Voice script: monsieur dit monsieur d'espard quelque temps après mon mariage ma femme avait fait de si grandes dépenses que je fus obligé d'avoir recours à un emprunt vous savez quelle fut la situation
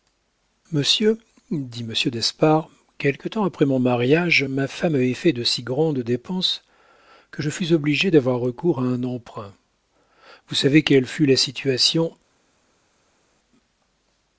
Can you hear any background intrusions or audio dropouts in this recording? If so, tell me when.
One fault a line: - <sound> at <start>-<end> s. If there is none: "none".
none